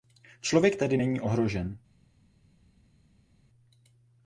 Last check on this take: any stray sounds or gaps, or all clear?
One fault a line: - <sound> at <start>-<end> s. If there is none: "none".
none